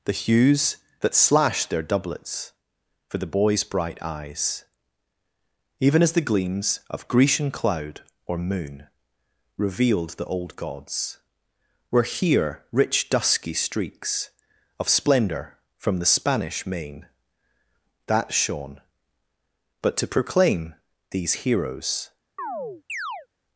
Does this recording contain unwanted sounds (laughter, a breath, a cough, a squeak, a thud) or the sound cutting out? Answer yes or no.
yes